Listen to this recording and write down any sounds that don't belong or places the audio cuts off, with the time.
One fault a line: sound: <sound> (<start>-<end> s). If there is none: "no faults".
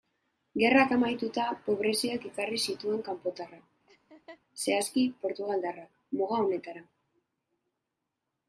sound: laugh (3.9-4.4 s)